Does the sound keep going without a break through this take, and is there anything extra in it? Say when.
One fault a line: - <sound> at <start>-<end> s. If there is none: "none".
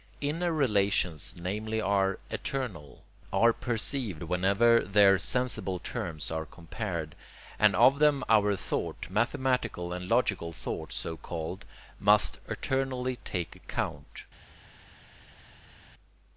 none